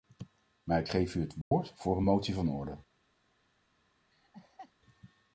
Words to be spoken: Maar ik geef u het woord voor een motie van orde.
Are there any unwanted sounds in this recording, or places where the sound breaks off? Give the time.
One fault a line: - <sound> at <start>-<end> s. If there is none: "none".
- dropout at 1.4-1.5 s
- laugh at 4.1-4.7 s